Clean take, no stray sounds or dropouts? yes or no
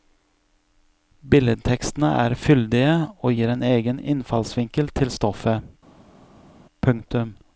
yes